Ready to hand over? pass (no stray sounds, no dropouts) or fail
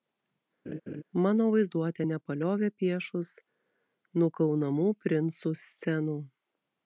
fail